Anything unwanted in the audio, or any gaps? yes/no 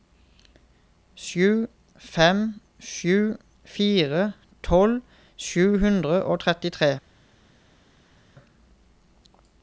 no